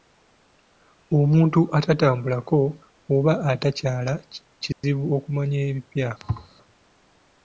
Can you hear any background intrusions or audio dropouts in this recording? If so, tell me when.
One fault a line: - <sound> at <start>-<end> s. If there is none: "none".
- dropout at 4.7-4.8 s
- thud at 6.2-6.5 s